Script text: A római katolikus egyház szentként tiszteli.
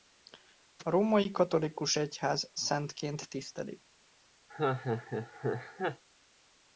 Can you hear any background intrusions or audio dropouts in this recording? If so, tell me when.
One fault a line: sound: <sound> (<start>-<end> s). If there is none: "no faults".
sound: laugh (4.5-6.0 s)